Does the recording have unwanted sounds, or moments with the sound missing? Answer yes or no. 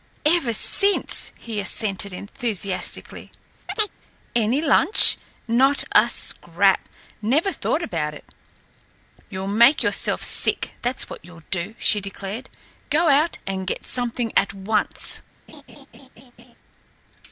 yes